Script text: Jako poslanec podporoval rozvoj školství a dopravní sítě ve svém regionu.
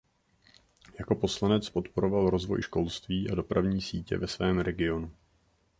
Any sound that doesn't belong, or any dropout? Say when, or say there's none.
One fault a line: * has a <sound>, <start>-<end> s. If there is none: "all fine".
all fine